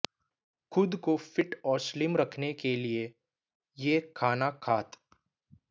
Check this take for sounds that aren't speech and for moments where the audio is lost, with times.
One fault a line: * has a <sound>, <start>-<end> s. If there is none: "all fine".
all fine